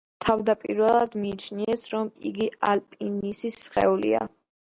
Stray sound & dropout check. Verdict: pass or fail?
pass